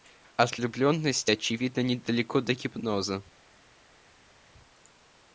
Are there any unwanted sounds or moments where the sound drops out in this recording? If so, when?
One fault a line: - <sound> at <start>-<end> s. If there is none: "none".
none